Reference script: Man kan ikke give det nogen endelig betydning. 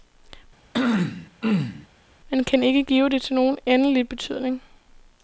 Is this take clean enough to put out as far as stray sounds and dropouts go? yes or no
no